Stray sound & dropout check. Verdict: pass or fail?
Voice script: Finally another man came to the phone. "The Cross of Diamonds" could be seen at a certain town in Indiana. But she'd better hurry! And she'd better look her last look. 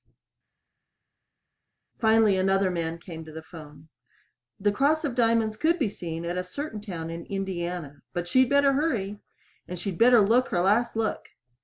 pass